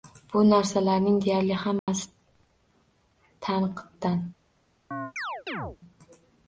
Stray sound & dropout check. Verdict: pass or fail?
fail